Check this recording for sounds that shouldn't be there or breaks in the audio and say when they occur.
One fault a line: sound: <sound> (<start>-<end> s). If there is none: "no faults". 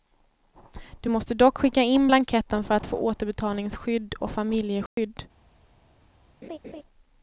sound: dropout (4.9-5.0 s)
sound: laugh (6.4-6.8 s)